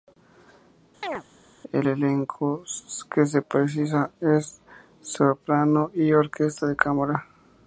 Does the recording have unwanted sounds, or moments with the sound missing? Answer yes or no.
yes